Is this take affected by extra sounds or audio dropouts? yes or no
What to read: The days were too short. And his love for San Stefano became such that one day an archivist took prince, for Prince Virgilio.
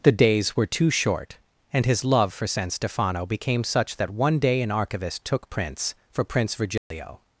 yes